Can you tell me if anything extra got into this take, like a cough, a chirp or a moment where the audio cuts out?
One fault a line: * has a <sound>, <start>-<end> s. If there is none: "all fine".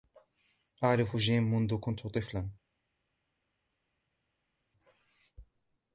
all fine